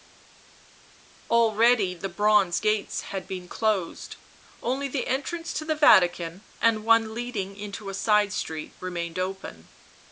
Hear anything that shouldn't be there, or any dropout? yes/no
no